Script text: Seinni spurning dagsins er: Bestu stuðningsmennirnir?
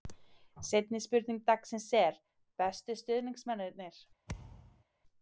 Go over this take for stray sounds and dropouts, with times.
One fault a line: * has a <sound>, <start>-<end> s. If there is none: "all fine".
* has a thud, 4.3-4.8 s